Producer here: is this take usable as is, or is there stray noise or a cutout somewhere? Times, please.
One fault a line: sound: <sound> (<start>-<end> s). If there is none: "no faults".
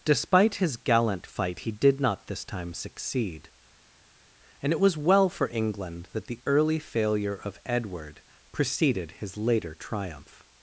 no faults